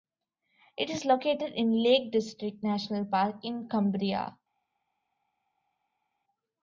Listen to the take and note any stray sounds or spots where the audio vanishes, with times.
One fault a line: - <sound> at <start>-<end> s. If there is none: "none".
none